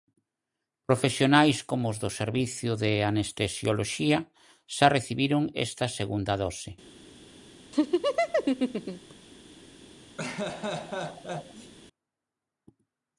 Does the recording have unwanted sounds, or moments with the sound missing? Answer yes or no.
yes